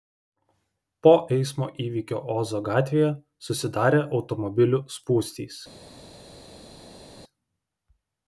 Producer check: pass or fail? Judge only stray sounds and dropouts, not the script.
pass